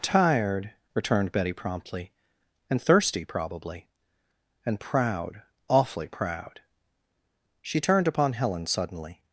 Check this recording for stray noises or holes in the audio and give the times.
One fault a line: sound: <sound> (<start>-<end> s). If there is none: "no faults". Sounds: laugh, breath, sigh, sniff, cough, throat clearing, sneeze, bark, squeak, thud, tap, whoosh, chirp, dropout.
no faults